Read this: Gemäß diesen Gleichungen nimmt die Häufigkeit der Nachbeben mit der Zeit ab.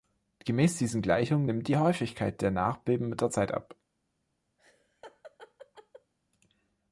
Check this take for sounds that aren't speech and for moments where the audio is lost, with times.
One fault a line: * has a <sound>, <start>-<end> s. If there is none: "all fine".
* has a laugh, 4.6-6.1 s